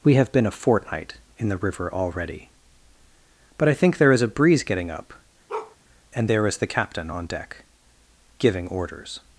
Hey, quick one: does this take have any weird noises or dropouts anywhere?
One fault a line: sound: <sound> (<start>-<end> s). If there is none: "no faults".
sound: bark (5.5-5.8 s)